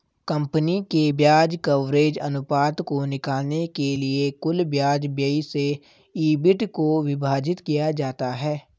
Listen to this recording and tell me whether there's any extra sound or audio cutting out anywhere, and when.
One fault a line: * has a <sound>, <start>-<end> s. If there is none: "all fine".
all fine